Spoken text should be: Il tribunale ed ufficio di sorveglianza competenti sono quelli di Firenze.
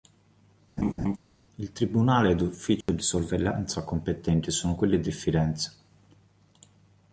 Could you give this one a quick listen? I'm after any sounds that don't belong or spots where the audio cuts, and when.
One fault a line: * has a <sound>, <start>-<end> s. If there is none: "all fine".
* has a laugh, 0.8-1.2 s
* has a dropout, 2.8-2.9 s